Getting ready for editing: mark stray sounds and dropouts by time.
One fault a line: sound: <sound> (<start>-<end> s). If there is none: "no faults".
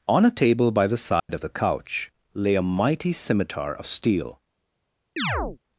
sound: dropout (1.2-1.3 s)
sound: chirp (5.2-5.6 s)